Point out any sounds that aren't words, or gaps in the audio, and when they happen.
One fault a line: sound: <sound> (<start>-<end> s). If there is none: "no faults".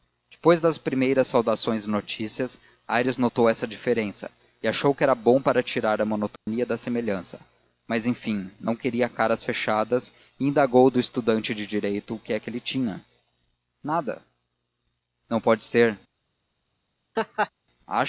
sound: dropout (6.4-6.5 s)
sound: laugh (17.2-17.5 s)